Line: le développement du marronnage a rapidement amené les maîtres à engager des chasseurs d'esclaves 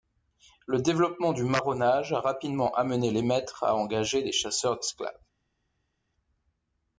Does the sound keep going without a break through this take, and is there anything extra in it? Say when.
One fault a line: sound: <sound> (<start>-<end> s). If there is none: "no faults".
no faults